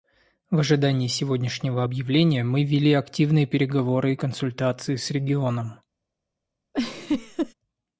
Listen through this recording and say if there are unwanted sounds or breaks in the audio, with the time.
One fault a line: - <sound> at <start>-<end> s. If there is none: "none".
- laugh at 6.7-7.5 s